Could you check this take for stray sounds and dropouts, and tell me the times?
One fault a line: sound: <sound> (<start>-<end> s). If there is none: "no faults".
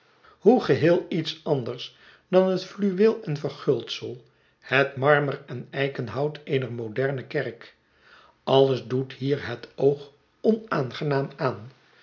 no faults